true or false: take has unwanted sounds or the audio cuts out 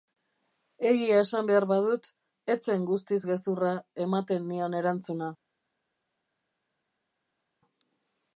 false